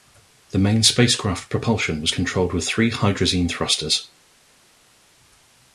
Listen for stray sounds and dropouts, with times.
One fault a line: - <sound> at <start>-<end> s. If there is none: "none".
none